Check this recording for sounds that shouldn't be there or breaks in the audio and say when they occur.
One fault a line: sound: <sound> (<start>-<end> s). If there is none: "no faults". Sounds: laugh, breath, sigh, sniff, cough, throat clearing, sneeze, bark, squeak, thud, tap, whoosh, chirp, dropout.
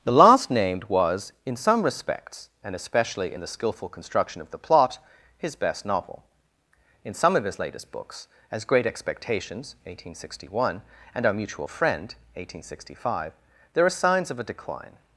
no faults